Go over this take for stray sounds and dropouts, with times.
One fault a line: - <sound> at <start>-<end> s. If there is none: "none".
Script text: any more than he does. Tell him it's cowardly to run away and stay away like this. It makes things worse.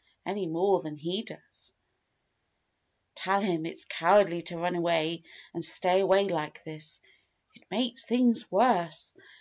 none